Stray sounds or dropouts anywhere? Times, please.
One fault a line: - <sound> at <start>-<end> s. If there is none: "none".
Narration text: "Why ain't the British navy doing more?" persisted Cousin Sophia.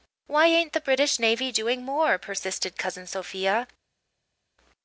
none